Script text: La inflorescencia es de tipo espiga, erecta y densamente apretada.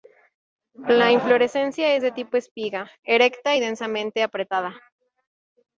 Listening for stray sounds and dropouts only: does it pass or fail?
pass